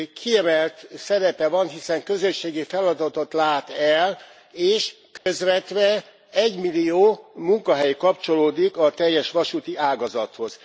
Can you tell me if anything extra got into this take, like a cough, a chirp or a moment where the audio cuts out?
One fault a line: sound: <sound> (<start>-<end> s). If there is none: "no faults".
sound: dropout (5.2-5.3 s)